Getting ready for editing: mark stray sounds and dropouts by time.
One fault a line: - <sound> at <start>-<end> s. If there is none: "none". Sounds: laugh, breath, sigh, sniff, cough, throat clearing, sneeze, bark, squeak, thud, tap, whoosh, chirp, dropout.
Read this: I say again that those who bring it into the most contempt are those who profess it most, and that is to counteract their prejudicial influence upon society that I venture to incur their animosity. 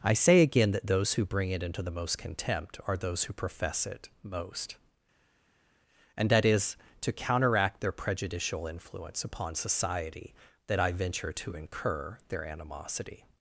none